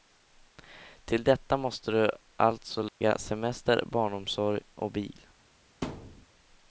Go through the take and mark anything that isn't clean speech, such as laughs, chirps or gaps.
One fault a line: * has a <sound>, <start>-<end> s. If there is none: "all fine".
* has a dropout, 2.9-3.0 s
* has a thud, 5.8-6.3 s